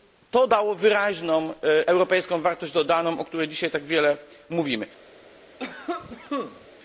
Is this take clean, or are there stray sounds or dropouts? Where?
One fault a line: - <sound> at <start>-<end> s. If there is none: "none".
- cough at 5.6-6.7 s